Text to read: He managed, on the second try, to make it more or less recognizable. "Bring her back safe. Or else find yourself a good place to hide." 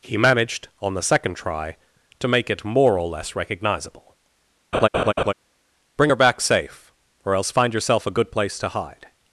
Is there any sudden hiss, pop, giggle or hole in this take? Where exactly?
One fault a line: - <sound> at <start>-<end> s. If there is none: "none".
- laugh at 4.7-5.3 s